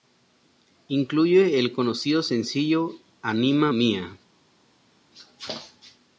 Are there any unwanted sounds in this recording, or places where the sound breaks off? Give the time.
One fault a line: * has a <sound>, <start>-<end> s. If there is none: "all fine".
all fine